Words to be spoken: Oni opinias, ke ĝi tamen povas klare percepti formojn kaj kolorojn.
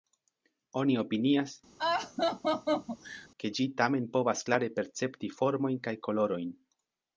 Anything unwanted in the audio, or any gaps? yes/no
yes